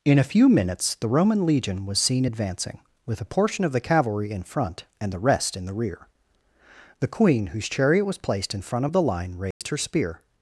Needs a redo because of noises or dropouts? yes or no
yes